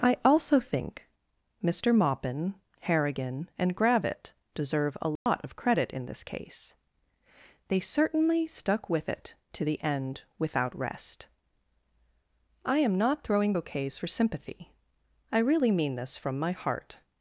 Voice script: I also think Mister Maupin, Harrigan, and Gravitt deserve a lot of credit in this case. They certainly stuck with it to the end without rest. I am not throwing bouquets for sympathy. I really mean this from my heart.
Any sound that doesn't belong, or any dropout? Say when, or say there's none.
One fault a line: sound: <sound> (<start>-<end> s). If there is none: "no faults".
sound: dropout (5.2-5.3 s)